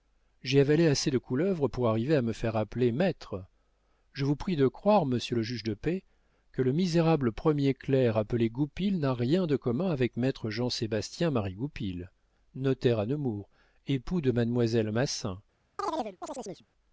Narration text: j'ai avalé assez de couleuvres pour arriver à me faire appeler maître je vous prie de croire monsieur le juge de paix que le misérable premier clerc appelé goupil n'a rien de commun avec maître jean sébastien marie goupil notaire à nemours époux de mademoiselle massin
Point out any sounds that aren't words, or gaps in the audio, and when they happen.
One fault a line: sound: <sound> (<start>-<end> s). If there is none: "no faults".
sound: chirp (15.8-16.7 s)